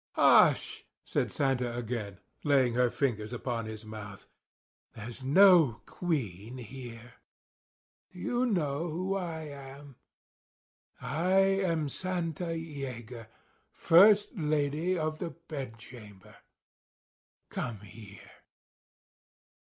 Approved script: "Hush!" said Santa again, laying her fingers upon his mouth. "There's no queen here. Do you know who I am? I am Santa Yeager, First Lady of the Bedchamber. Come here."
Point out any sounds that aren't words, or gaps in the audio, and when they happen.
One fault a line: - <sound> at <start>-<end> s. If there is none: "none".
none